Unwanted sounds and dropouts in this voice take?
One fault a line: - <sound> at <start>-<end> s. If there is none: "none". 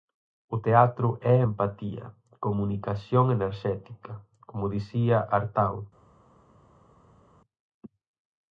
none